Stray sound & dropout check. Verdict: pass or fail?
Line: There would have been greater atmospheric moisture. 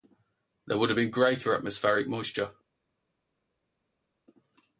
pass